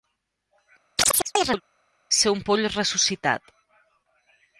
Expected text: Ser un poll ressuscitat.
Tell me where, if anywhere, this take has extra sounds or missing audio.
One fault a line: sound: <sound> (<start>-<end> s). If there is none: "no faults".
sound: chirp (1.0-1.6 s)